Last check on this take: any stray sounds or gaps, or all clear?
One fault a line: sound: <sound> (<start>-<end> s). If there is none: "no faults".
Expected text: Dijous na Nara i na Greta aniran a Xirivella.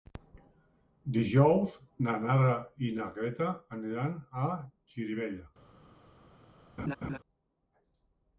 sound: laugh (6.8-7.2 s)